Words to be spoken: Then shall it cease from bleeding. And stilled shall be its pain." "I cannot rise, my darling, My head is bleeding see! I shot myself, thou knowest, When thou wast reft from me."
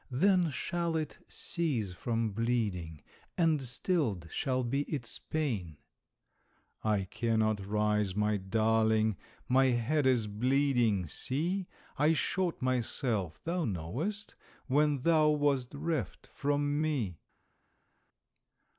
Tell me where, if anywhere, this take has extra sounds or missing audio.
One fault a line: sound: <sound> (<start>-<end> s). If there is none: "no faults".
no faults